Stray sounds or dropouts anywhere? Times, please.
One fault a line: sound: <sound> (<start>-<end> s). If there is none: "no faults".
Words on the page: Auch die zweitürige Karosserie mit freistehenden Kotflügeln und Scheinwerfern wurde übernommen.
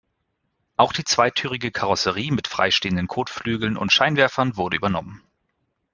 no faults